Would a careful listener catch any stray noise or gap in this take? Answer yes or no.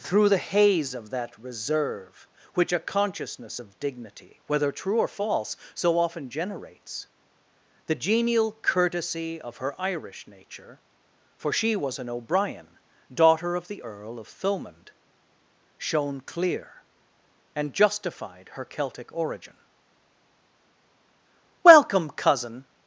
no